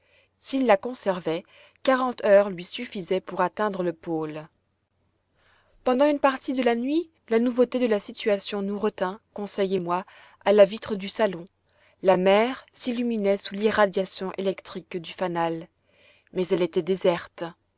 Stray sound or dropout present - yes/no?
no